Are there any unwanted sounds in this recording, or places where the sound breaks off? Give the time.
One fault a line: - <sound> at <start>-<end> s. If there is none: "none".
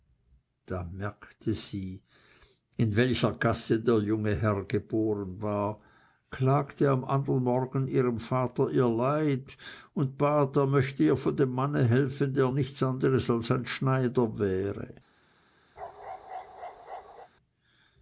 - bark at 15.8-17.3 s